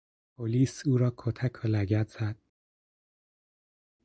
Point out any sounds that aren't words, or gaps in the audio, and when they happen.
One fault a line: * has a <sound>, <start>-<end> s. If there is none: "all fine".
all fine